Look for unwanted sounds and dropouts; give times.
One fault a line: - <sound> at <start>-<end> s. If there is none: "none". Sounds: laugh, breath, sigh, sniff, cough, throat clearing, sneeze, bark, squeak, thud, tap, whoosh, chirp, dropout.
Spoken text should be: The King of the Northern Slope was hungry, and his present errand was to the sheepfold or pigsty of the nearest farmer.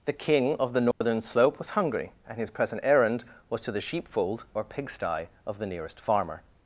- dropout at 0.9-1.0 s